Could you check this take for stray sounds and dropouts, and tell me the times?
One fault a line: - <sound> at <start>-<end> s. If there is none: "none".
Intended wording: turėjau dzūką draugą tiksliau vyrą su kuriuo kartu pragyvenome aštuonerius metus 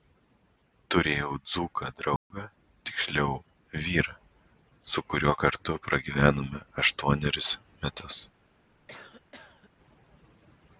- dropout at 2.2-2.3 s
- cough at 8.9-9.7 s